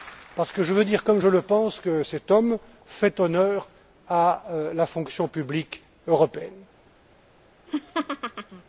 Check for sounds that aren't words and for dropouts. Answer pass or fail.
fail